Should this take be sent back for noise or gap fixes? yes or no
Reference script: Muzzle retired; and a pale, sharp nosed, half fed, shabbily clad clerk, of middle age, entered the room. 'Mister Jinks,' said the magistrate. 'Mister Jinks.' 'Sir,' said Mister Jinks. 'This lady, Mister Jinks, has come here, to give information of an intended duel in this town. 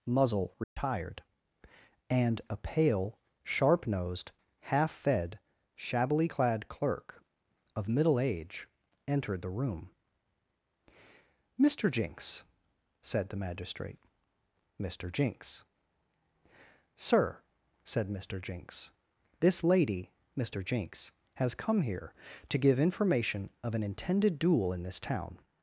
yes